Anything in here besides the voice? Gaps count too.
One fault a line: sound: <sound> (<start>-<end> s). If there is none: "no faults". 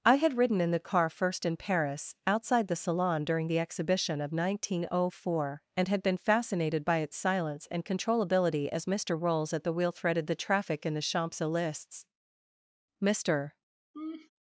sound: laugh (13.9-14.3 s)